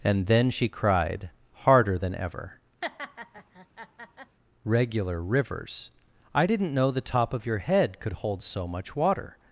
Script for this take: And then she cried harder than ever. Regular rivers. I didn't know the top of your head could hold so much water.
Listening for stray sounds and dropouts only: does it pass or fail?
fail